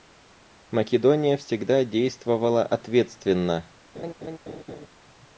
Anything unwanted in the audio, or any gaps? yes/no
yes